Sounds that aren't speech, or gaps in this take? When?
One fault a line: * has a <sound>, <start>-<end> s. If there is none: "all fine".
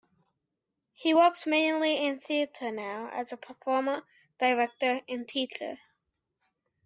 all fine